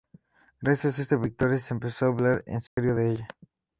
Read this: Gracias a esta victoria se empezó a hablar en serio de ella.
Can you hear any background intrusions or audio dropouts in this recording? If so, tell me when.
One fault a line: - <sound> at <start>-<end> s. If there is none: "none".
- dropout at 2.7-2.8 s